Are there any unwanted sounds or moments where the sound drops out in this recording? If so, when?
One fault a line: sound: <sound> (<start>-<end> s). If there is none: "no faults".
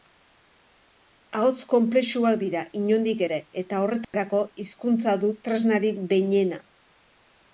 sound: dropout (4.0-4.1 s)